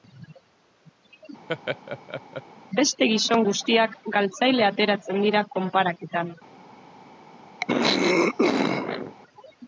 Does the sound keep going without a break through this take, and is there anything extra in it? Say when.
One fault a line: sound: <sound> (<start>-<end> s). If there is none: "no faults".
sound: laugh (1.5-2.4 s)
sound: throat clearing (7.6-9.2 s)